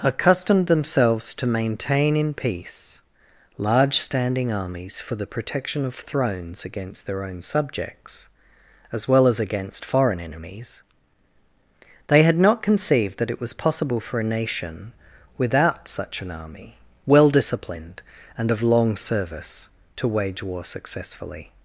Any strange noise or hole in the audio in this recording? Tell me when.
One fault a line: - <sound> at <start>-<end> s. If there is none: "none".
none